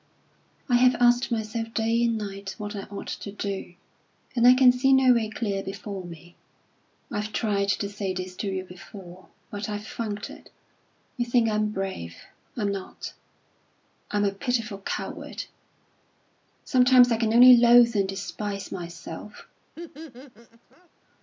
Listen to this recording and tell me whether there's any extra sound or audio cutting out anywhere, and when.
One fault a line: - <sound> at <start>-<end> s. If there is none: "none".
- laugh at 19.8-20.9 s